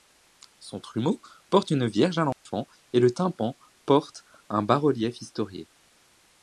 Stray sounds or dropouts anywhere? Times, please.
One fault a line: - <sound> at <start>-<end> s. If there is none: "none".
- dropout at 2.3-2.5 s